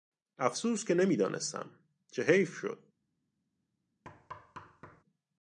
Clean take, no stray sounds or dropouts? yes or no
no